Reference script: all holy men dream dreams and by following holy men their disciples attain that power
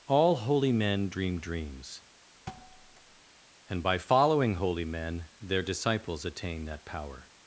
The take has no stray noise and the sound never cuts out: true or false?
false